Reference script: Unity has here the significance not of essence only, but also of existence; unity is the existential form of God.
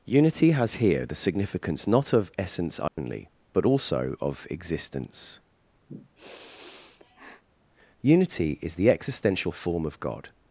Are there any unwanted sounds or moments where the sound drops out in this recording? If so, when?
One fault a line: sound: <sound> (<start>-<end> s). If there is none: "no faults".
sound: dropout (2.9-3.0 s)
sound: sniff (5.9-7.4 s)